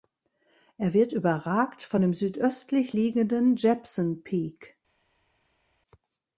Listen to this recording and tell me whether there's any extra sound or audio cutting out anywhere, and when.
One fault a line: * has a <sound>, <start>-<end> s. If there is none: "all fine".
all fine